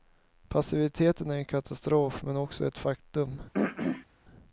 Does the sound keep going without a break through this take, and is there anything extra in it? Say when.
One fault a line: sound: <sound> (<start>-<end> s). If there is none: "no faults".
sound: throat clearing (3.5-4.1 s)